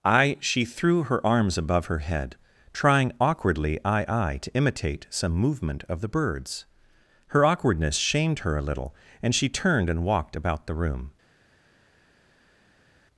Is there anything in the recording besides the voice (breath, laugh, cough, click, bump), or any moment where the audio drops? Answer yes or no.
no